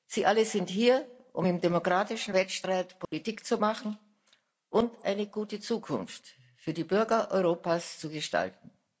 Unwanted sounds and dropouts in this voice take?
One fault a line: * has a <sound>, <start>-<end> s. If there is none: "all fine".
* has a dropout, 3.0-3.1 s